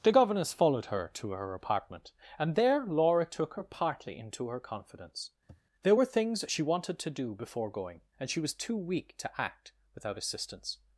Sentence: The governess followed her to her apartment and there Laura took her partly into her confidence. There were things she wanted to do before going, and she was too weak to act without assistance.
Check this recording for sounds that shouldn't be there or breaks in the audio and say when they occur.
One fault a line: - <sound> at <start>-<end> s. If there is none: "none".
- sniff at 5.5-5.6 s